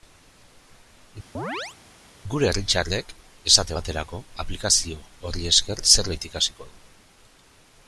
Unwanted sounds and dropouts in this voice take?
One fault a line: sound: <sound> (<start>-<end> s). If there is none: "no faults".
sound: chirp (1.3-1.8 s)